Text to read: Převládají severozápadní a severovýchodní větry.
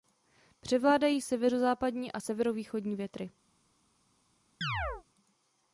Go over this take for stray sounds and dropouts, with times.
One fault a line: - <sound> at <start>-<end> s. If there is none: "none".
- chirp at 4.6-5.0 s